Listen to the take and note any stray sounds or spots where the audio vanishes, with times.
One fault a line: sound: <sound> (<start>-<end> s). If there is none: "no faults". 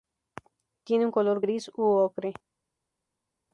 no faults